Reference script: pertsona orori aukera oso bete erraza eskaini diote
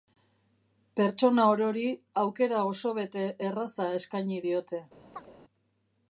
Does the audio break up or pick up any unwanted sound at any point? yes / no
yes